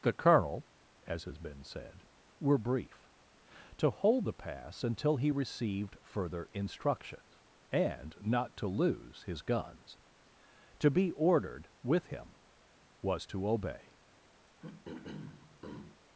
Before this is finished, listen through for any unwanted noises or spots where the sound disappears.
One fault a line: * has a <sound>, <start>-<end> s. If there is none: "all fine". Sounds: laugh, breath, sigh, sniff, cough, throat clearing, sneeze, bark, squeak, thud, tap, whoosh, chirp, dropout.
* has a throat clearing, 14.5-16.0 s